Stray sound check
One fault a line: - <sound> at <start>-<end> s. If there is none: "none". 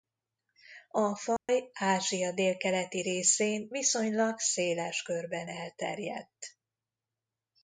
- dropout at 1.4-1.5 s